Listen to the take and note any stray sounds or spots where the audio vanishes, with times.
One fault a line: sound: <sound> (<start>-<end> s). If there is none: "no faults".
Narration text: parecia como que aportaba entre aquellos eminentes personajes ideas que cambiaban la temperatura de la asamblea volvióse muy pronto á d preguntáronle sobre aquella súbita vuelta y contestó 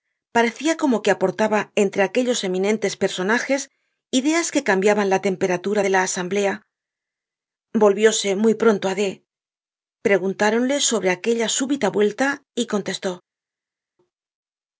no faults